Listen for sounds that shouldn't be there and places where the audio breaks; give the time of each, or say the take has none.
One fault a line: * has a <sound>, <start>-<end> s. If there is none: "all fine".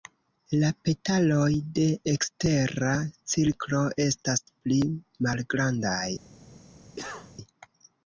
* has a cough, 7.0-7.3 s